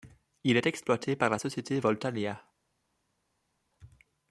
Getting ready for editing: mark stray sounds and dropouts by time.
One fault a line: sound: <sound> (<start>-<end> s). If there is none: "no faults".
no faults